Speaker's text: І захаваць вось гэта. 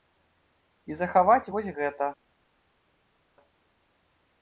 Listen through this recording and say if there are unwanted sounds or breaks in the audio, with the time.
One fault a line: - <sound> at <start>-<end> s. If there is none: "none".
none